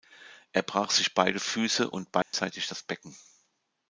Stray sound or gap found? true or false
true